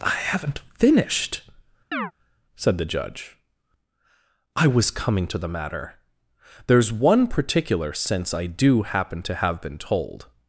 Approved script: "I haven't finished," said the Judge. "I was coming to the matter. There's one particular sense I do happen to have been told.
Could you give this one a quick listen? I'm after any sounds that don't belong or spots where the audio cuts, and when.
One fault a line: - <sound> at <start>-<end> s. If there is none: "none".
- chirp at 1.9-2.1 s